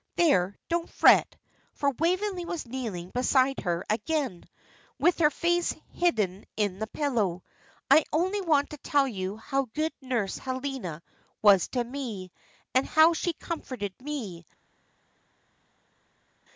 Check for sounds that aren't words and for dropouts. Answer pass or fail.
pass